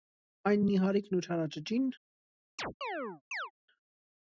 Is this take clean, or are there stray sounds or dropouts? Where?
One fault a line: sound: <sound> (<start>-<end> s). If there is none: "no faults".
sound: chirp (2.6-3.5 s)